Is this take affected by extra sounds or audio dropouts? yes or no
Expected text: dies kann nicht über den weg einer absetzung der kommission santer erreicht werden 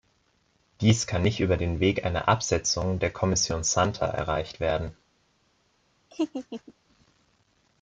yes